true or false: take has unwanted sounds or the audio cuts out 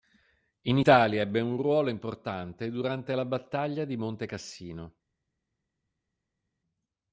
false